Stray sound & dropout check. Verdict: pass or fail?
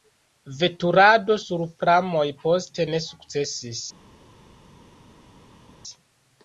pass